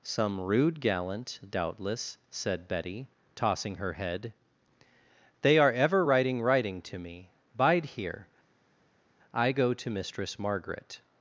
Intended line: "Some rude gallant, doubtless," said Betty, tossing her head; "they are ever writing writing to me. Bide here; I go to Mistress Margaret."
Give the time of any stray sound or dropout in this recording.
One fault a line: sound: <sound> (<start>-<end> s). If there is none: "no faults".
no faults